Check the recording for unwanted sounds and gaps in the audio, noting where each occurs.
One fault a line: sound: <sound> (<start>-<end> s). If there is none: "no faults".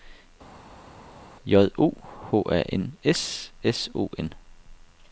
no faults